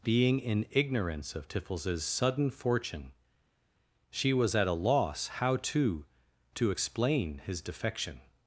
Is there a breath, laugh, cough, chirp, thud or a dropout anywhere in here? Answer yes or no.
no